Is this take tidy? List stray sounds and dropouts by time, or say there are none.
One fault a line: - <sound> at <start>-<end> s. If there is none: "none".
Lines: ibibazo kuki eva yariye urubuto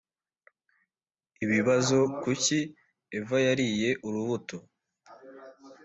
none